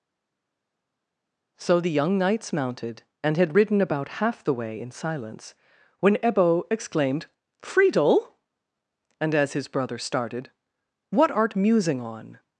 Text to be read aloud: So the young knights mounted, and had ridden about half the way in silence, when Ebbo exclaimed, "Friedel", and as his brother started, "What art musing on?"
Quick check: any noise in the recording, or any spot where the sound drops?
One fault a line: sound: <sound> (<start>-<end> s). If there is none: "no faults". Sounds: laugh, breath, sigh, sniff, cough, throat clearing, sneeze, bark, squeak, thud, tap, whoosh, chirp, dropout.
no faults